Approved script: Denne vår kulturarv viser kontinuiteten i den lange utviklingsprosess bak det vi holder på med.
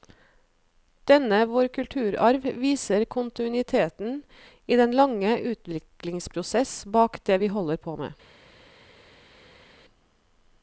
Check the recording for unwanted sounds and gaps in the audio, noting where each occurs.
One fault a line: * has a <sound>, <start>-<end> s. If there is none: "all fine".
all fine